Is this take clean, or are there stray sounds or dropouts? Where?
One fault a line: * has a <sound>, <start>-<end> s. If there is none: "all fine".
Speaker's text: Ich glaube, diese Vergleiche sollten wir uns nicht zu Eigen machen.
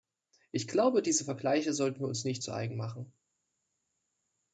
all fine